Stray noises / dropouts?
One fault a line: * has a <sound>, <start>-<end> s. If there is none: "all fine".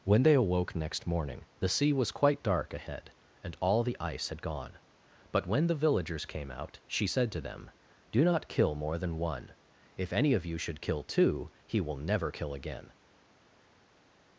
all fine